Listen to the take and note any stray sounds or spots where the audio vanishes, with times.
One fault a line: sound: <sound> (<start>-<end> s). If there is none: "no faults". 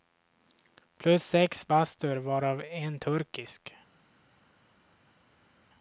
no faults